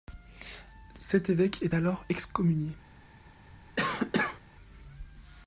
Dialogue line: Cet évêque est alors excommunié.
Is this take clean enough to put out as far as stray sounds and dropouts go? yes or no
no